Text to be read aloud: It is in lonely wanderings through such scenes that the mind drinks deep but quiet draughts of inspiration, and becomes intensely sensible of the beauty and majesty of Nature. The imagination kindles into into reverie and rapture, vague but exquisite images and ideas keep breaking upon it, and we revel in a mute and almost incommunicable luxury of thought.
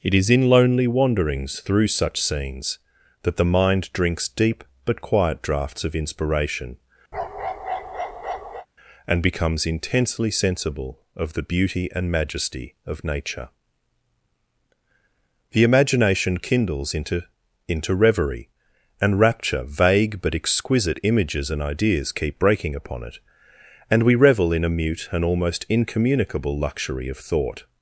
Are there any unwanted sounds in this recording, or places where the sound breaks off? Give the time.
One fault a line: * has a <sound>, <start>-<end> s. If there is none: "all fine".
* has a bark, 7.1-8.7 s